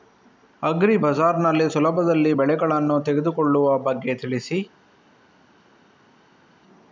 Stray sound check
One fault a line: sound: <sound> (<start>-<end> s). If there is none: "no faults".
no faults